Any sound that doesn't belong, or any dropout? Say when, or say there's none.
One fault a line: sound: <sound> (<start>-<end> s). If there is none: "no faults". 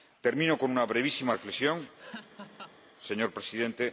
sound: laugh (2.0-2.8 s)